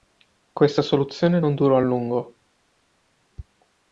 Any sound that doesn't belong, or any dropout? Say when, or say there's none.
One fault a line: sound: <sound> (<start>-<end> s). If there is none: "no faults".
no faults